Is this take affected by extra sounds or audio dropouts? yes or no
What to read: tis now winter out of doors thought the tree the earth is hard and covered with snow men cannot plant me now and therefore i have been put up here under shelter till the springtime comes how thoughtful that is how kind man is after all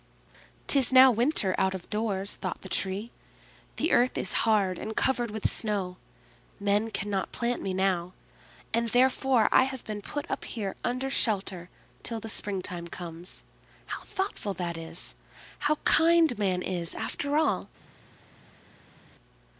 no